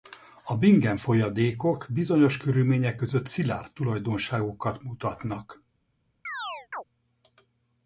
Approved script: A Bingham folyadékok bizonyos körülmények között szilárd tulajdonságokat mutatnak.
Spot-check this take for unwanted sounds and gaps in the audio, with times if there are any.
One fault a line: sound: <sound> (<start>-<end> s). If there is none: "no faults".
sound: chirp (6.3-6.8 s)